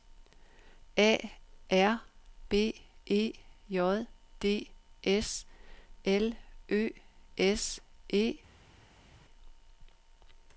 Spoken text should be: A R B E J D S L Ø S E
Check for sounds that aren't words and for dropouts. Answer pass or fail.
pass